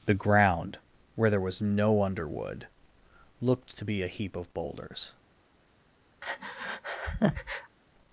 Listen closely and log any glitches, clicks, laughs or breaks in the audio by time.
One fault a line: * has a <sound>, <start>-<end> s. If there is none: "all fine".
* has a breath, 6.2-7.8 s